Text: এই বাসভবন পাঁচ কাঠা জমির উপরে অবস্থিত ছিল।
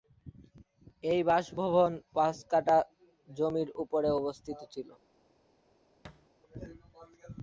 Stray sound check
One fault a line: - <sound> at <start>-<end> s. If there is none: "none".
- thud at 6.0-6.3 s